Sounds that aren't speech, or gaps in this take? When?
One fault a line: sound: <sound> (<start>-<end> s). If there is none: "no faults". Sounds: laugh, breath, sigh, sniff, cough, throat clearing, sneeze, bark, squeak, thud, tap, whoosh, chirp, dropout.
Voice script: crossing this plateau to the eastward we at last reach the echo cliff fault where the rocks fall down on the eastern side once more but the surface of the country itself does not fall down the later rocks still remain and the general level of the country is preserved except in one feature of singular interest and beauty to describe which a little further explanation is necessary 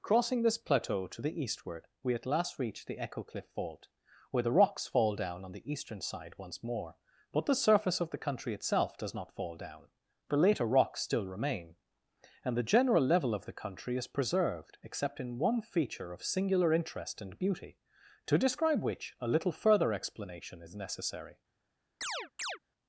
sound: chirp (22.0-22.6 s)